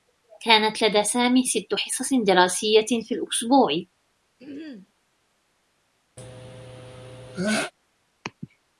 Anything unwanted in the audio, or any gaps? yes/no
yes